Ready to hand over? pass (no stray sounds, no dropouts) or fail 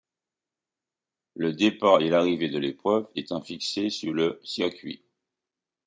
pass